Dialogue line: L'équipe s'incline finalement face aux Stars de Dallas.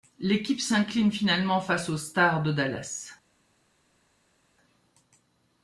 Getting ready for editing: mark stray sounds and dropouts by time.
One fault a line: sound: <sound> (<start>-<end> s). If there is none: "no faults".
no faults